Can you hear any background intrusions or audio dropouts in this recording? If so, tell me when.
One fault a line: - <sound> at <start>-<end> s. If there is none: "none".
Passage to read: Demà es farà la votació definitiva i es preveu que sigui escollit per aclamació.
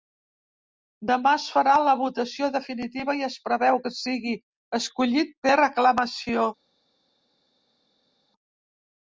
none